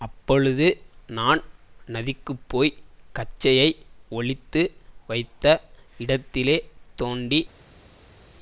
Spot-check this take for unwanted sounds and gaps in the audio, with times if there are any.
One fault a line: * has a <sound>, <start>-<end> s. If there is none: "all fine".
all fine